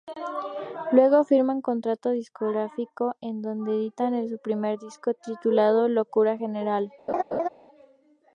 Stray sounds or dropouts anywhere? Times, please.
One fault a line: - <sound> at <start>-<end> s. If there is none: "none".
- laugh at 7.1-7.5 s